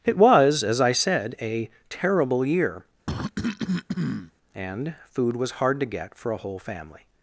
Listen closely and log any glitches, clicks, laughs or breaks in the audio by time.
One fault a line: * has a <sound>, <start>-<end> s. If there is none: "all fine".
* has a cough, 3.1-4.3 s